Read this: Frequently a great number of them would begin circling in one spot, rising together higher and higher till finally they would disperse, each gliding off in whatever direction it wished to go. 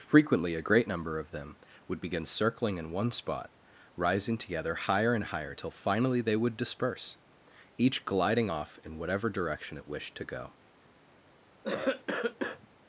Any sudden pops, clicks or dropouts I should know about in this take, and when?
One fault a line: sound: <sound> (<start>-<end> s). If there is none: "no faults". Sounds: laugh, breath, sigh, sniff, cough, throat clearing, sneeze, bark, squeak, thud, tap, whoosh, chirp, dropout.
sound: cough (11.6-12.7 s)